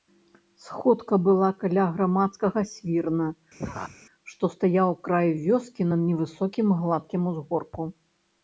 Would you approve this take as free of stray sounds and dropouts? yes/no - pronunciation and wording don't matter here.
no